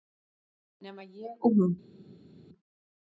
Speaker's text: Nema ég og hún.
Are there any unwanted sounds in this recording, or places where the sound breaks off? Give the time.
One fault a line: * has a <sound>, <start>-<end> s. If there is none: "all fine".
all fine